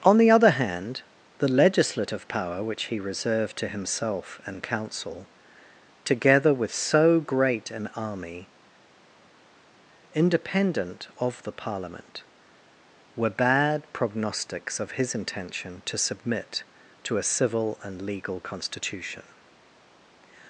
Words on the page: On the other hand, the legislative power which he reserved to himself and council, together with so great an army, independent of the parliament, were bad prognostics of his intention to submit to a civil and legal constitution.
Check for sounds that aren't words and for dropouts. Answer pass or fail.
pass